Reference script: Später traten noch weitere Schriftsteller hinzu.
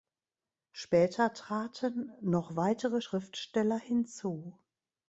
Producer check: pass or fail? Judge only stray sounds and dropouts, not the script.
pass